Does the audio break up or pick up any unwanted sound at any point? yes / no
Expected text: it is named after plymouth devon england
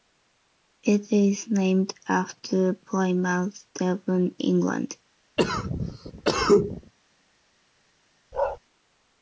yes